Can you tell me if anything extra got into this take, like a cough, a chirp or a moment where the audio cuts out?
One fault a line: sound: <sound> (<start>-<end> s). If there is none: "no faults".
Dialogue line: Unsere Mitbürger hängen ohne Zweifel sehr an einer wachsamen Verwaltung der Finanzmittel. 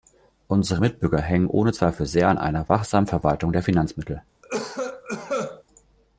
sound: cough (4.4-5.6 s)